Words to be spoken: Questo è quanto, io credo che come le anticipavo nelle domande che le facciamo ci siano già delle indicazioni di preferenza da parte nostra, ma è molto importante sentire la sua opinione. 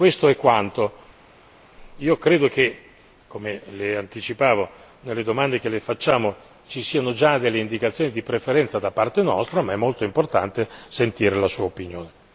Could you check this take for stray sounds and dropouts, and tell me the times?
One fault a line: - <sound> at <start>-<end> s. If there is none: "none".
none